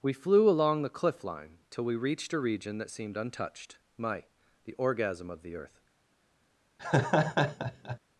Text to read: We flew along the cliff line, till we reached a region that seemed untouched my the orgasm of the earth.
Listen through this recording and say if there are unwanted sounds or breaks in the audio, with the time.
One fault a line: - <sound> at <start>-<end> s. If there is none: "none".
- laugh at 6.8-8.0 s